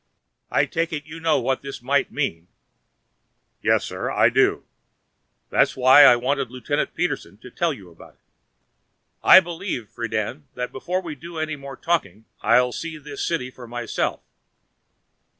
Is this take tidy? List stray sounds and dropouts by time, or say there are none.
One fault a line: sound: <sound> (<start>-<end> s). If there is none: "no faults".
no faults